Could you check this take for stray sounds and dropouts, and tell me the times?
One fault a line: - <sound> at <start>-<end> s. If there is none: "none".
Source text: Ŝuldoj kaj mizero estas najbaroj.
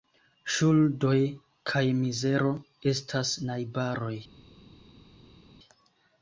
none